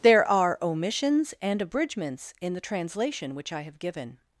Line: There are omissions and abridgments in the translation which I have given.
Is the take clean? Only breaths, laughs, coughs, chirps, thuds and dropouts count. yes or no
yes